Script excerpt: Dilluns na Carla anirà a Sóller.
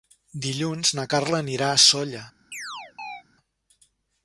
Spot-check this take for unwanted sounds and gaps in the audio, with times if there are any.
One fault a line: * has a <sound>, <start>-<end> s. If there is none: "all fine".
* has a chirp, 2.5-3.2 s